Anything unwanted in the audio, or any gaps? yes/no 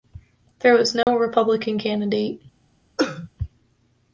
yes